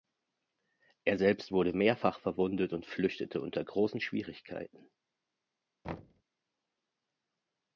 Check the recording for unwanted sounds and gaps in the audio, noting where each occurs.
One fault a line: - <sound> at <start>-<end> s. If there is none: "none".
- thud at 5.8-6.2 s